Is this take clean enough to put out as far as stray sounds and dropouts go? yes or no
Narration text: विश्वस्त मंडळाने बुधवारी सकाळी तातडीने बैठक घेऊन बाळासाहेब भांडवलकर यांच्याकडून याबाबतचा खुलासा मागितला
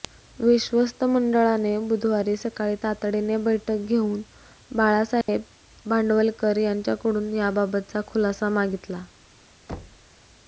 no